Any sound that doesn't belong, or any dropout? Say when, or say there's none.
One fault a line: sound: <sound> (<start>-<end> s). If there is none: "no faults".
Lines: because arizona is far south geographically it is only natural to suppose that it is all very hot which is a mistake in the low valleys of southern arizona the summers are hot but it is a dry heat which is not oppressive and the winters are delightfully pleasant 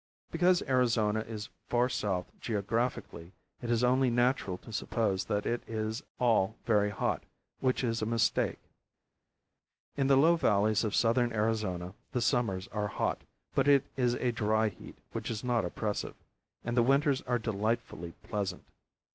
no faults